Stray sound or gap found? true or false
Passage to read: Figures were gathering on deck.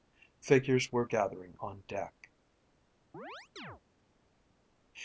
true